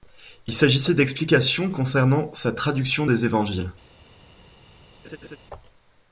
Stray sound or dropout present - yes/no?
yes